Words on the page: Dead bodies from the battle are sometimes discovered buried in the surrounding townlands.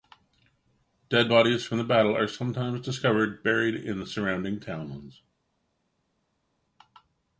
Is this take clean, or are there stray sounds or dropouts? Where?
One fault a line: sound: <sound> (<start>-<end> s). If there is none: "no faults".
no faults